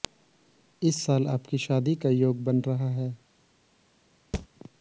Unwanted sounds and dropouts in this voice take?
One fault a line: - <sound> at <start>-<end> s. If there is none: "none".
- thud at 4.3-4.5 s